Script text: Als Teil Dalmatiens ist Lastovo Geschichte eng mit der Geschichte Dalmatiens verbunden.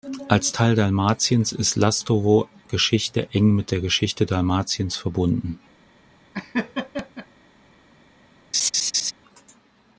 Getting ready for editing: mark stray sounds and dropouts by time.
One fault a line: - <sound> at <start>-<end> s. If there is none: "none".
- laugh at 6.3-7.3 s
- laugh at 8.5-9.1 s